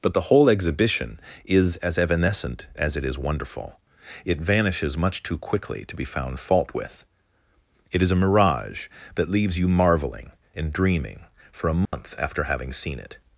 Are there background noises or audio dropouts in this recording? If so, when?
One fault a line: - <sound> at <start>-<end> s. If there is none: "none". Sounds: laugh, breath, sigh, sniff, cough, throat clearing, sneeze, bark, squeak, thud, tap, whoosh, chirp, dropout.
- dropout at 11.9-11.9 s